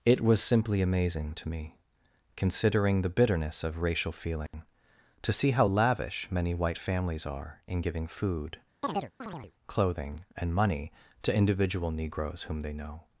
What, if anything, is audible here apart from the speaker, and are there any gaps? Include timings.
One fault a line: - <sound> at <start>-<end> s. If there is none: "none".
- dropout at 4.5-4.5 s
- chirp at 8.8-9.5 s